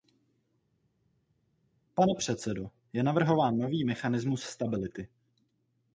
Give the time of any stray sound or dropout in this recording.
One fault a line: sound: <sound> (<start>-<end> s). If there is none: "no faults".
no faults